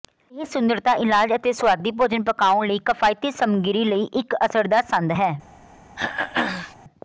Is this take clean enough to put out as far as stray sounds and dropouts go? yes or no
no